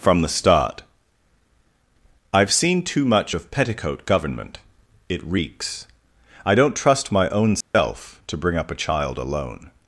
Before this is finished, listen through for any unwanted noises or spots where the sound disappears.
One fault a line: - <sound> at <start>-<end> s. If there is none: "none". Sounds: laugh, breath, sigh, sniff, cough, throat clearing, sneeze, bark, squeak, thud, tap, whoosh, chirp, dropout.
- dropout at 7.6-7.7 s